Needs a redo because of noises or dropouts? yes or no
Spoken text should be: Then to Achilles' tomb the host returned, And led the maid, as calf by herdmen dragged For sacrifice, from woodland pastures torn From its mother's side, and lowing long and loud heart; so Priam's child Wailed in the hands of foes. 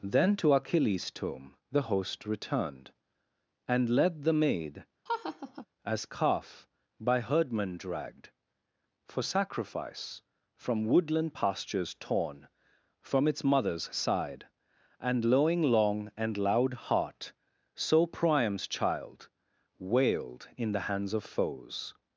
yes